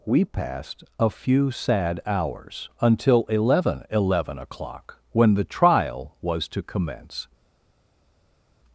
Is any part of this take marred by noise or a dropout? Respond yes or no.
no